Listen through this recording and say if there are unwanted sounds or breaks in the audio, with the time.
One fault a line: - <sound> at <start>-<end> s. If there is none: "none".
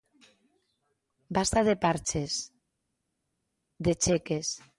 none